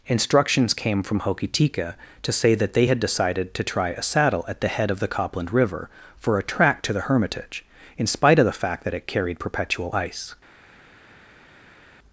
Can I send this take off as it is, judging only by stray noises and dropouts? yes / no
yes